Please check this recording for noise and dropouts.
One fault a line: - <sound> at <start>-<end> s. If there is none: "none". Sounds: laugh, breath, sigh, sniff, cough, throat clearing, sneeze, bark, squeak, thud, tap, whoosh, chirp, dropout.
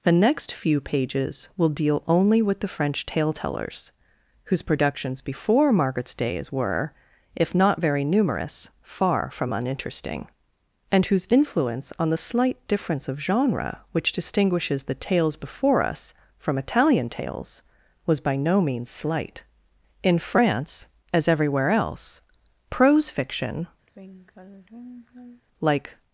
- sigh at 23.9-25.4 s